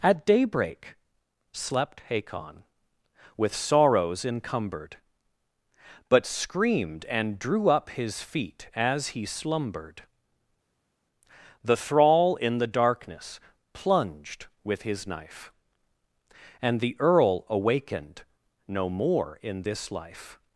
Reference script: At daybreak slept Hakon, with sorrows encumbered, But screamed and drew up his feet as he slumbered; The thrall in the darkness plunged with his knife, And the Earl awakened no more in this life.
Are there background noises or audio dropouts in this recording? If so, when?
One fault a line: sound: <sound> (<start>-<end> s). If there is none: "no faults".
no faults